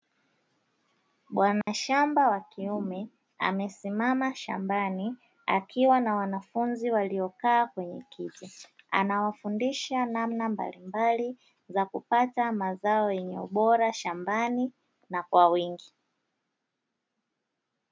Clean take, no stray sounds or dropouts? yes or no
no